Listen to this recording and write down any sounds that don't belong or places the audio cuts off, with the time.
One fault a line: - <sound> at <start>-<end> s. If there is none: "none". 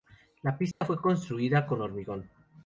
- dropout at 0.7-0.8 s